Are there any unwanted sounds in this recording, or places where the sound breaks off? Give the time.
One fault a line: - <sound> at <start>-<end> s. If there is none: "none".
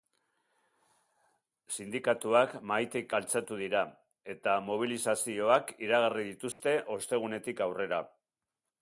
- dropout at 6.5-6.6 s